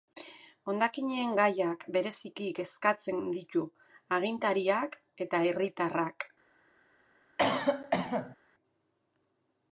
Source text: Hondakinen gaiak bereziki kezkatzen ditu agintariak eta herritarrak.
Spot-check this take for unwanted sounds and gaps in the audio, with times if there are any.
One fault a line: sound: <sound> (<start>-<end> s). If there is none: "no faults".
sound: cough (7.4-8.4 s)